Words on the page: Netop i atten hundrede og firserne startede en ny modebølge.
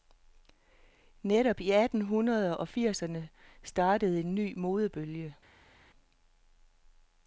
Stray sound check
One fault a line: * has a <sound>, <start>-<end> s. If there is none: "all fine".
all fine